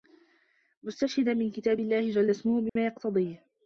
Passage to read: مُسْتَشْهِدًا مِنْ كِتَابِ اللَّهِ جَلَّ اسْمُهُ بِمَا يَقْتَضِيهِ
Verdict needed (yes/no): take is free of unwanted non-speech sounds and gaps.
no